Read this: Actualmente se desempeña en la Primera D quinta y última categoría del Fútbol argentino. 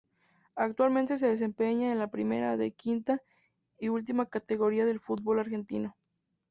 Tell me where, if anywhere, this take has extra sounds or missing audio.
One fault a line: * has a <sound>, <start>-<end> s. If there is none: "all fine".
all fine